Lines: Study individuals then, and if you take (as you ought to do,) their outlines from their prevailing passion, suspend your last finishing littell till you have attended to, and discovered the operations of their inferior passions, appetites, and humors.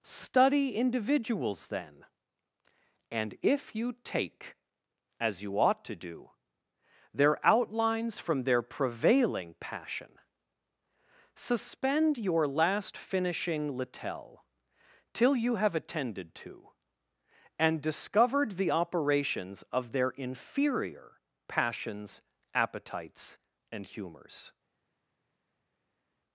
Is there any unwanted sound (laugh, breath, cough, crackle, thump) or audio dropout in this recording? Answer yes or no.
no